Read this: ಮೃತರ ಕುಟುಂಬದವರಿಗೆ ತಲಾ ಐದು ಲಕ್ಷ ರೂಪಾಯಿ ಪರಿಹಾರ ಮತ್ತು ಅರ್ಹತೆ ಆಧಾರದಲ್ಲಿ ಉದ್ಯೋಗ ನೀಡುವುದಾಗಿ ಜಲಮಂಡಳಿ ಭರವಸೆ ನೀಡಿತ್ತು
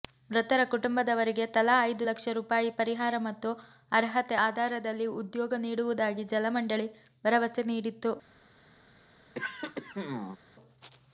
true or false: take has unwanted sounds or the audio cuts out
true